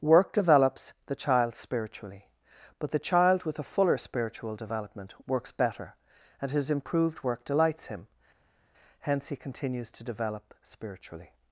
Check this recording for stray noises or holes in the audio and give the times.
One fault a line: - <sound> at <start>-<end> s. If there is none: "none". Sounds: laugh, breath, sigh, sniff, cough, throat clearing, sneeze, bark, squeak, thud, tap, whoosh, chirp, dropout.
none